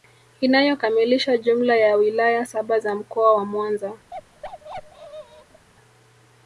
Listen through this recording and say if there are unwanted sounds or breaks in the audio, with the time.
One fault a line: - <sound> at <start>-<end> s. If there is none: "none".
- bark at 4.1-5.7 s